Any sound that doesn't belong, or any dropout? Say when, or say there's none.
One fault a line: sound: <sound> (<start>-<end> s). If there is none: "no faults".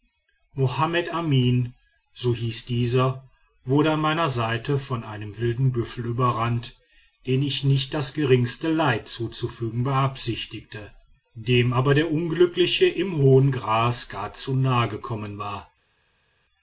no faults